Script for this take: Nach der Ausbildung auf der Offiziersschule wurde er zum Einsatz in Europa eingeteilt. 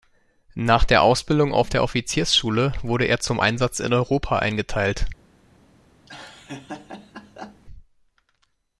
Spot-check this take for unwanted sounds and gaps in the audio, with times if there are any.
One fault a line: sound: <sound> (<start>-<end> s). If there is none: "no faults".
sound: laugh (6.1-7.6 s)